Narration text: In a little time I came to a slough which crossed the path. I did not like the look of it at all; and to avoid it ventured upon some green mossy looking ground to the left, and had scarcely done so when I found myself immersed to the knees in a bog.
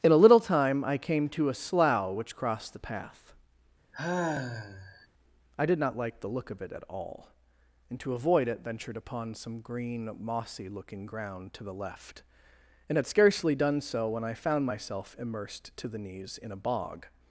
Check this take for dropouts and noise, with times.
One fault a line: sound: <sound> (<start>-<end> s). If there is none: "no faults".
sound: sigh (3.9-5.1 s)